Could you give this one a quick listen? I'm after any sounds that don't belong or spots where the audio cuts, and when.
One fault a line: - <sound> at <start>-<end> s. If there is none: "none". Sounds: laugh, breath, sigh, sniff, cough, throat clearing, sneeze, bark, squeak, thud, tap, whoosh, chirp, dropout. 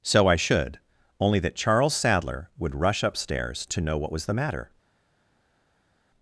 none